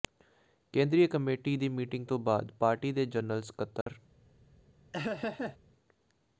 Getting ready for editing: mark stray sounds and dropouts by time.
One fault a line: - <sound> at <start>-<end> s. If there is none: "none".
- dropout at 3.8-3.9 s
- laugh at 4.9-5.6 s